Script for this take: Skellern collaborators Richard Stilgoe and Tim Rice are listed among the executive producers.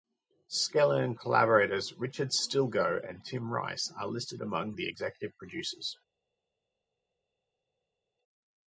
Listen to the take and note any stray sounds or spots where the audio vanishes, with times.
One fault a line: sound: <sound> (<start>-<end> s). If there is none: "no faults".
no faults